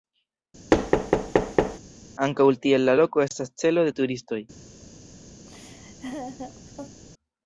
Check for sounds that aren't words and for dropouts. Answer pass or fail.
fail